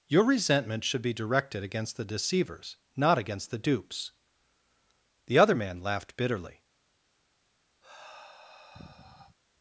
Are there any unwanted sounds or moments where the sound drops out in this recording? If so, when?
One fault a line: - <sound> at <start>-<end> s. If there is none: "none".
- sigh at 7.8-9.4 s